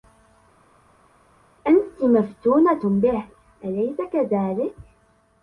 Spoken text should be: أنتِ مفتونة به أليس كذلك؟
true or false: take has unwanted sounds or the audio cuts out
false